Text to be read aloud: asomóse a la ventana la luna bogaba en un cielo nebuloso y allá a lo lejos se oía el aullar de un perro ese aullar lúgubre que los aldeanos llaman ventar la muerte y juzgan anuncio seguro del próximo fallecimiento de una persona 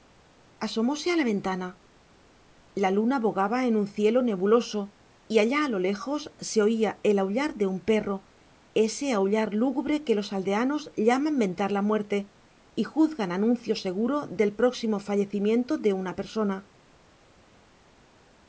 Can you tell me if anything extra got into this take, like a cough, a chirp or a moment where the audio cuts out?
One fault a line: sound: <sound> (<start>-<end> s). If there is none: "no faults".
no faults